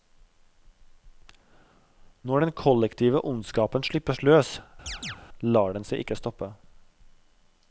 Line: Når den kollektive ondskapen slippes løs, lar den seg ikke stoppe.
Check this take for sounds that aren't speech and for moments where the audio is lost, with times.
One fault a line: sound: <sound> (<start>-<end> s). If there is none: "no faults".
sound: chirp (4.9-5.2 s)